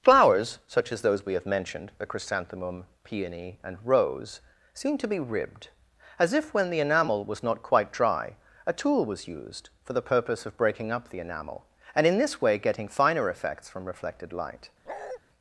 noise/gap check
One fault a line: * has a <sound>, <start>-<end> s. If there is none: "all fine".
* has a bark, 14.9-15.2 s